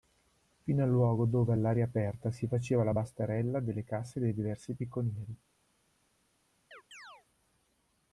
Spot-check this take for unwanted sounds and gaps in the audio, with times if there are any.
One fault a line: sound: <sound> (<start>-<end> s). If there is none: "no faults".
sound: chirp (6.7-7.3 s)